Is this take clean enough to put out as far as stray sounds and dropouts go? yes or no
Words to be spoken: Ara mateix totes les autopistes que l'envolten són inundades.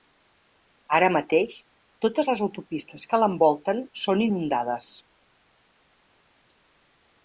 yes